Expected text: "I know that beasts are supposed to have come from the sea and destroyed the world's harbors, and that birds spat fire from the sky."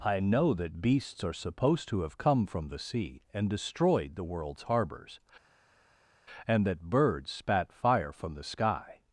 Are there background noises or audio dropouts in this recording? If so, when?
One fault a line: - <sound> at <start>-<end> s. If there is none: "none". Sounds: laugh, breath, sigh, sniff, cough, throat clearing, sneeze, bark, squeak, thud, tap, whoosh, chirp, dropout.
none